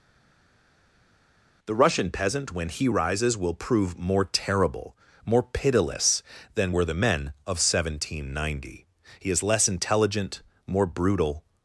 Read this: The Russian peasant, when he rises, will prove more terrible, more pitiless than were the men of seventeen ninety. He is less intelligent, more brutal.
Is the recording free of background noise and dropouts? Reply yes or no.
yes